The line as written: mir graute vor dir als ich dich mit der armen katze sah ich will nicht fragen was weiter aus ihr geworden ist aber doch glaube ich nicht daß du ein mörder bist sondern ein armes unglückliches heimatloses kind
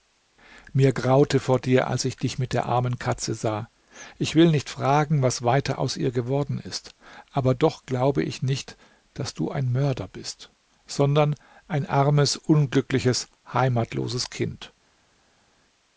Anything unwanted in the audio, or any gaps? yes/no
no